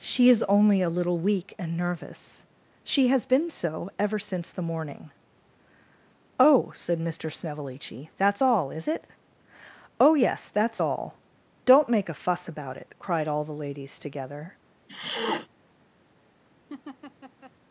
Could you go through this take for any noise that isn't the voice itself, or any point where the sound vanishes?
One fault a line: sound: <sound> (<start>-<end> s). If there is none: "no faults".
sound: sniff (14.9-15.5 s)
sound: laugh (16.7-17.5 s)